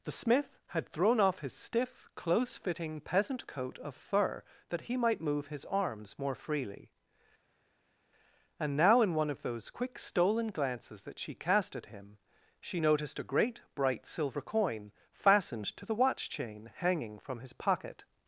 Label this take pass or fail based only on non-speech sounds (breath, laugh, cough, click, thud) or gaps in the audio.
pass